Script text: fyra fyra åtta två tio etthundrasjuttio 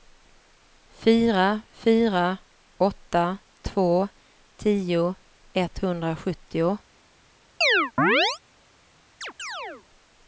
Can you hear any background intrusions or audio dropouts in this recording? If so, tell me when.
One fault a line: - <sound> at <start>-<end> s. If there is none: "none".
- chirp at 7.6-8.4 s
- chirp at 9.2-9.8 s